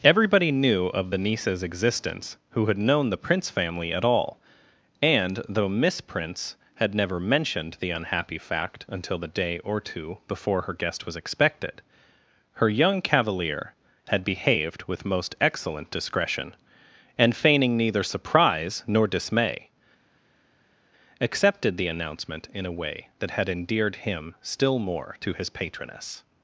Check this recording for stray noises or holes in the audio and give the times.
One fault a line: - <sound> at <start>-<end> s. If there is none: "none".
none